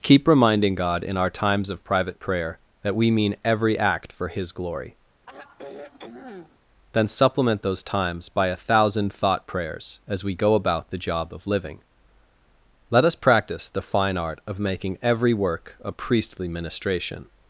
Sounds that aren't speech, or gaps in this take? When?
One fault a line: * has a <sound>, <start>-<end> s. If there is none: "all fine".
* has a sigh, 5.3-6.6 s